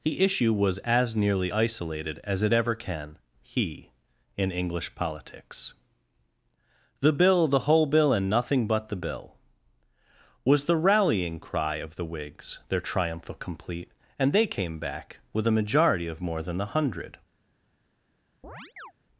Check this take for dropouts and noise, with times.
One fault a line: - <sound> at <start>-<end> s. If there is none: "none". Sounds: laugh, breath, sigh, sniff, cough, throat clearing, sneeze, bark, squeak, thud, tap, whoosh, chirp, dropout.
- chirp at 18.4-18.9 s